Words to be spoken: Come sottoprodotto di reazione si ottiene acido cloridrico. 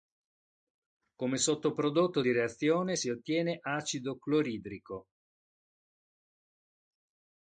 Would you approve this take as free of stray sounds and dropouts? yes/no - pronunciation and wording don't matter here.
yes